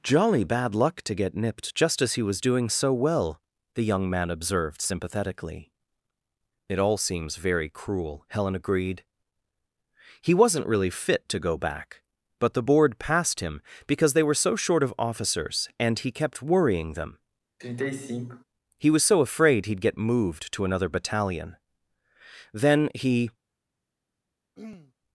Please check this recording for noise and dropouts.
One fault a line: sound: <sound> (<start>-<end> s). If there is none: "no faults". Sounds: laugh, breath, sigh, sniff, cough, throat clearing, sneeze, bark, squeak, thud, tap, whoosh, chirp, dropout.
sound: sigh (17.6-18.4 s)
sound: throat clearing (24.6-24.9 s)